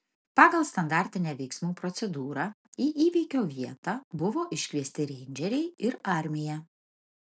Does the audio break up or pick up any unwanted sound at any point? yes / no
no